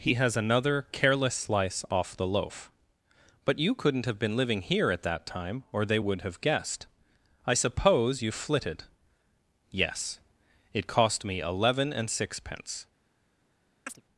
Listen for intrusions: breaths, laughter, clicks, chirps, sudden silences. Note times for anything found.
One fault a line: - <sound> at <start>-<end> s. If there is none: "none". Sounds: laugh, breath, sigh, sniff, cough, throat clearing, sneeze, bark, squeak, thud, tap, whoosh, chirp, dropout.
- chirp at 13.9-14.0 s